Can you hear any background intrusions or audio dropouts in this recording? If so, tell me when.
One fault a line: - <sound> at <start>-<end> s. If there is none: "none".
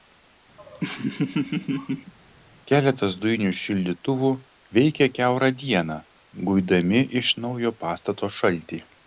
- laugh at 0.6-2.1 s